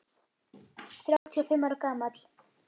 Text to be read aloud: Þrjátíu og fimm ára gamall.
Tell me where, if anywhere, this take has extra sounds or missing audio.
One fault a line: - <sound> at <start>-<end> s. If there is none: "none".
- dropout at 1.2-1.3 s